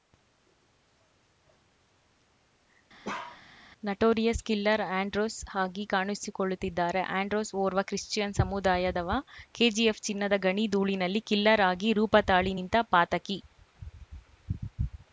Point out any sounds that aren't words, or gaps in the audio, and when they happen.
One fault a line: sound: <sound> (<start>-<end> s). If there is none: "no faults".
sound: bark (3.0-3.4 s)